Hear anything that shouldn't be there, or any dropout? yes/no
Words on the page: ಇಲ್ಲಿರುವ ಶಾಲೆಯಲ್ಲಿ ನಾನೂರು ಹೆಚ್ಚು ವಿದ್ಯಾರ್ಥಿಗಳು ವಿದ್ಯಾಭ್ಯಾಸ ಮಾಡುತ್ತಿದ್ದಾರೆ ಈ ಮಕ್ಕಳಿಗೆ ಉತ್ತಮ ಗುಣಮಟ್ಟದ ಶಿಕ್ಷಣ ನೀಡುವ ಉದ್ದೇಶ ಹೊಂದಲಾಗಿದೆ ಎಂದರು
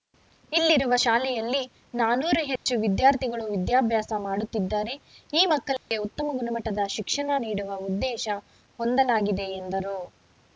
yes